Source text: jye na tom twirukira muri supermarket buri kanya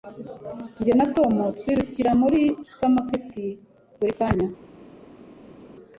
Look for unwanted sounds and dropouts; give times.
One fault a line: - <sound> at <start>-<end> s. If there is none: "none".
none